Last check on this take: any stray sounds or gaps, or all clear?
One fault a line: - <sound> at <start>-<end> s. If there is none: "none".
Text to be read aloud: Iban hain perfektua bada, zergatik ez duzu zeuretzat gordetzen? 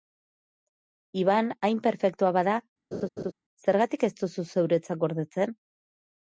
- laugh at 2.9-3.3 s